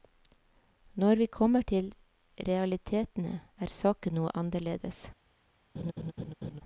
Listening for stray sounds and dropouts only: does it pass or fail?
fail